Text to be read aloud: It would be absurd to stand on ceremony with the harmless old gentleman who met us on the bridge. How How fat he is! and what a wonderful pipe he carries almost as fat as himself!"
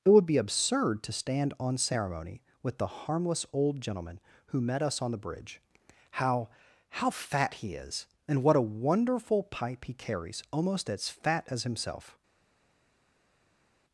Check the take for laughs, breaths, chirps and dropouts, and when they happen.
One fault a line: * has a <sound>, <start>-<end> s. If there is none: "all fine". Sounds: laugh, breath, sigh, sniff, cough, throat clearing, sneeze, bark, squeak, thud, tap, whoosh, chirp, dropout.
all fine